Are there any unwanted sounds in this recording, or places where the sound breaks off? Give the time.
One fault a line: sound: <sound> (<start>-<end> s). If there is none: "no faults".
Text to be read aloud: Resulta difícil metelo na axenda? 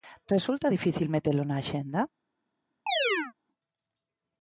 sound: chirp (2.9-3.3 s)